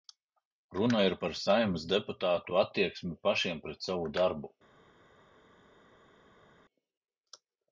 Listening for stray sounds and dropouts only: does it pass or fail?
pass